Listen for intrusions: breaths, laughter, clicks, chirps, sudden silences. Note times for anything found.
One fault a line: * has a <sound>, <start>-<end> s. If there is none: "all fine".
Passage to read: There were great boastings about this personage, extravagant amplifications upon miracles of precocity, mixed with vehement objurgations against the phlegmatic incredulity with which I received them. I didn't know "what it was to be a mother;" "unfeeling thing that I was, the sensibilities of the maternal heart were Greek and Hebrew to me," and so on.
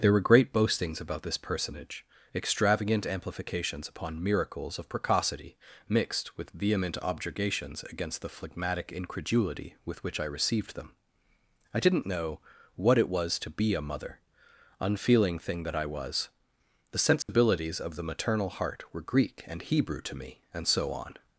* has a dropout, 17.2-17.3 s